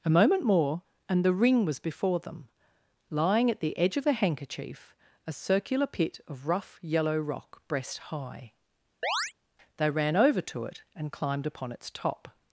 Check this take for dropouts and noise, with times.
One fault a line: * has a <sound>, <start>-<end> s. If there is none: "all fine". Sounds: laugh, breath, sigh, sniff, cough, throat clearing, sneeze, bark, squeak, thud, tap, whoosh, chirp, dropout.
* has a chirp, 9.0-9.3 s